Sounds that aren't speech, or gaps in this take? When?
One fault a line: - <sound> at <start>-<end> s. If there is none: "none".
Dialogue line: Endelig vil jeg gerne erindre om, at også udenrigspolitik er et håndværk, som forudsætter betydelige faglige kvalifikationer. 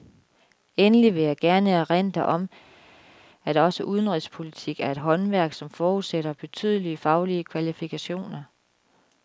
none